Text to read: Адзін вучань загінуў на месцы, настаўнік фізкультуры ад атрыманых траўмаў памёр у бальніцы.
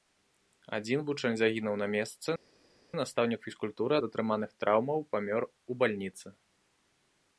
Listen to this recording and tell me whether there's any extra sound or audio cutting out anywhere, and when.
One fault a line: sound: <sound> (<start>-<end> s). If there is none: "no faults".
no faults